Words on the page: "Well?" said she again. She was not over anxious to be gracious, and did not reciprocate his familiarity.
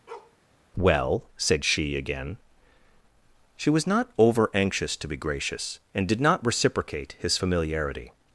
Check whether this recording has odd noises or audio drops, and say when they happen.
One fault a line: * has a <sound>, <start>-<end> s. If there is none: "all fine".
* has a bark, 0.1-0.4 s